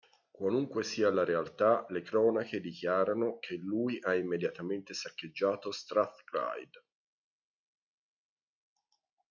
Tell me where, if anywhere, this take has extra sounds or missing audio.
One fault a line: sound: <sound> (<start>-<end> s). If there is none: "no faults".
no faults